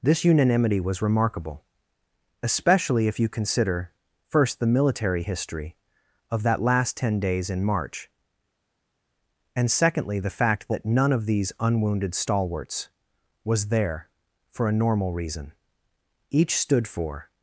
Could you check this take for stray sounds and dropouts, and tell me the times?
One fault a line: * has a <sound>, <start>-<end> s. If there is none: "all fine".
all fine